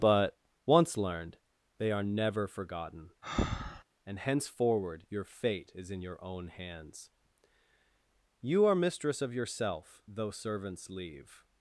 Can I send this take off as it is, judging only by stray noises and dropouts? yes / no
no